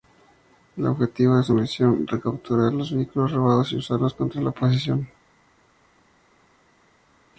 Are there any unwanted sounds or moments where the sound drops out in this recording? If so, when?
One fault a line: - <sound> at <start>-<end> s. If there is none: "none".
none